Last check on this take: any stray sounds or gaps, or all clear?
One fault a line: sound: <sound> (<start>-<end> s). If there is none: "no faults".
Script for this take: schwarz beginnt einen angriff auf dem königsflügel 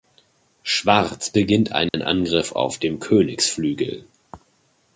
sound: dropout (1.9-1.9 s)